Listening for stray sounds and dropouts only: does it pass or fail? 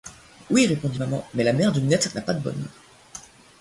pass